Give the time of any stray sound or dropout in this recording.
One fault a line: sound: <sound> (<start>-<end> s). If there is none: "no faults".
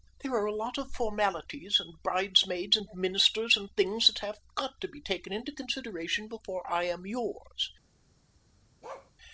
sound: bark (8.8-9.1 s)